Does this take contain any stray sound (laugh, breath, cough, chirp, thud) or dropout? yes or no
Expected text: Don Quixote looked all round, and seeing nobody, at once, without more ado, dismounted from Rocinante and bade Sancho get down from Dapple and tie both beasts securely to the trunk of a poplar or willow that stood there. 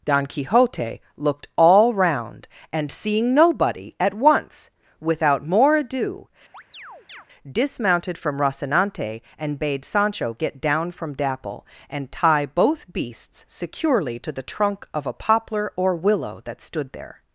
yes